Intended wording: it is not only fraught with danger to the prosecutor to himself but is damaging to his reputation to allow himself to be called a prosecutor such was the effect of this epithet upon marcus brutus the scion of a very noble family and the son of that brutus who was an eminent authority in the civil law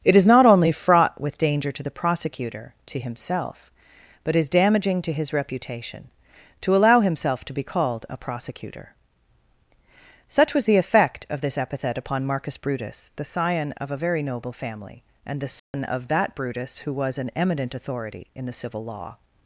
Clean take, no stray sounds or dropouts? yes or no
no